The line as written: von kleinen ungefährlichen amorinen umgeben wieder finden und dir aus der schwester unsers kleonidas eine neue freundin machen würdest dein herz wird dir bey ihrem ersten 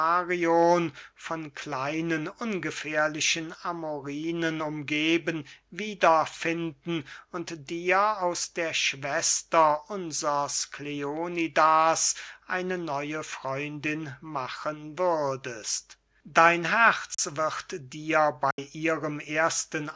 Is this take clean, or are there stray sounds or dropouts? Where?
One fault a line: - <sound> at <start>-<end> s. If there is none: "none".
- dropout at 17.1-17.2 s
- dropout at 18.5-18.6 s